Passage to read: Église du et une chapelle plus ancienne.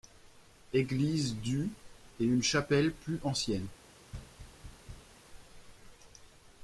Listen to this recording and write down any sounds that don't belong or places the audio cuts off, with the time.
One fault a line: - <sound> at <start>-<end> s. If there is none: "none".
- thud at 4.1-5.2 s